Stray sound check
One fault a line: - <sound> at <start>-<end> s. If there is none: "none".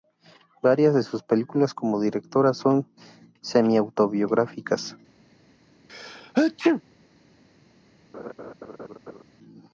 - sneeze at 5.9-6.8 s
- laugh at 8.1-9.2 s